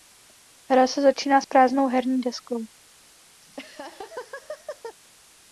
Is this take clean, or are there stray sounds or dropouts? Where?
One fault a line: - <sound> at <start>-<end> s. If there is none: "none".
- laugh at 3.4-5.0 s